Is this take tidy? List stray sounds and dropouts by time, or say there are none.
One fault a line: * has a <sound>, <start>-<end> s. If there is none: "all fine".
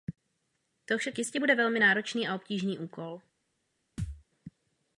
* has a thud, 4.0-4.2 s